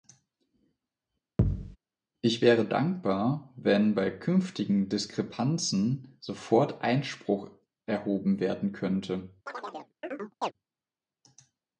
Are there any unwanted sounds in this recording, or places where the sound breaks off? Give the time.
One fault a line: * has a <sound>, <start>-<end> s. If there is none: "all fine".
* has a thud, 1.4-1.8 s
* has a chirp, 9.5-10.5 s